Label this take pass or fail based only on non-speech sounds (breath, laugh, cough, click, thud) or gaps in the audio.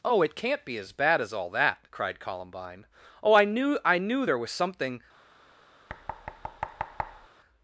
fail